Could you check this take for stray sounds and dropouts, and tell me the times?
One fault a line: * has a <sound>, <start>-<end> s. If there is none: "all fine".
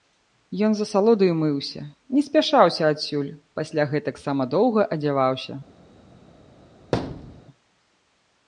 * has a thud, 6.9-7.4 s